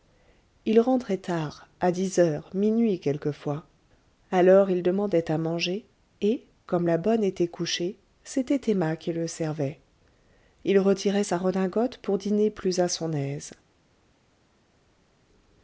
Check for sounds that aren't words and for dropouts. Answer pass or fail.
pass